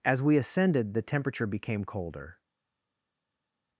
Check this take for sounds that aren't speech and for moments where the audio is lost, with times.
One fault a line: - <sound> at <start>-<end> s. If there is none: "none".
none